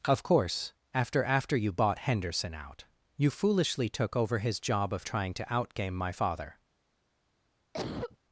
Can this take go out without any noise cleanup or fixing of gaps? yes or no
no